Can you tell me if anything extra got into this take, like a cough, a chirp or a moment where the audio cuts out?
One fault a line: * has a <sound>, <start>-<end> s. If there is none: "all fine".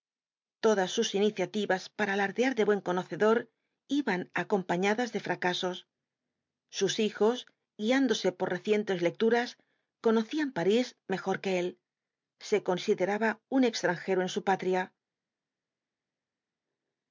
all fine